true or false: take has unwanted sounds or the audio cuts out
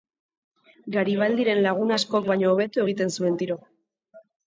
false